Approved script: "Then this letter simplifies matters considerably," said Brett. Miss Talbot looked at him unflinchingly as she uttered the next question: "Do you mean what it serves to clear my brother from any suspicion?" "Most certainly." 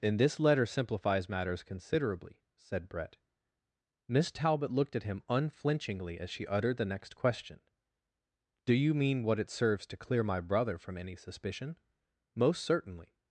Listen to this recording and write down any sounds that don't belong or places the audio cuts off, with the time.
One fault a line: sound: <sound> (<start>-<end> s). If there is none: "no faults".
no faults